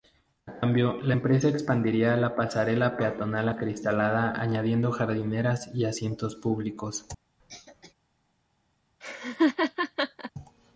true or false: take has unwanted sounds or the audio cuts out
true